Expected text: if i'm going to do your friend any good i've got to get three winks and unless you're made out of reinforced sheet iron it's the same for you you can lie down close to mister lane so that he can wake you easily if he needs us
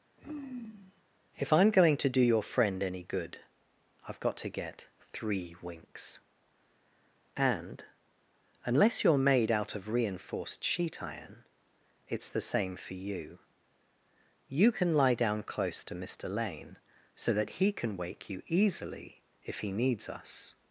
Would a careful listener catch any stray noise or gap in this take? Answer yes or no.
yes